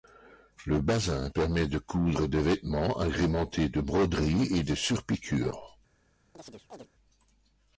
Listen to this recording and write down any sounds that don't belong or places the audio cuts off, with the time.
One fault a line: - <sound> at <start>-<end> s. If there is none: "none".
- chirp at 6.3-6.9 s